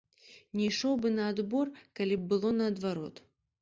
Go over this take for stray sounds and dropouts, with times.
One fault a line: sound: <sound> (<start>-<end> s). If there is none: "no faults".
no faults